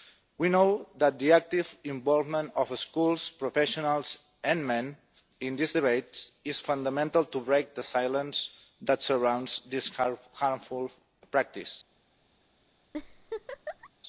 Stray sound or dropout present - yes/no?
yes